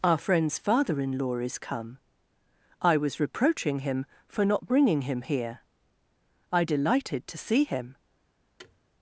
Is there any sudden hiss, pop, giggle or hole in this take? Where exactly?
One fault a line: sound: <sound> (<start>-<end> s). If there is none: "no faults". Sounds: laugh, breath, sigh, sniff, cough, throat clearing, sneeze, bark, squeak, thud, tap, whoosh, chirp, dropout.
sound: thud (8.6-8.8 s)